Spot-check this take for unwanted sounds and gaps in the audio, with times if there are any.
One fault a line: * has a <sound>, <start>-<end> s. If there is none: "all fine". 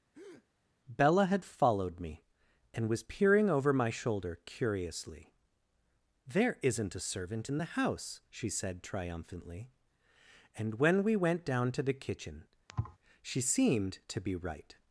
* has a breath, 0.1-0.5 s
* has a thud, 12.7-13.0 s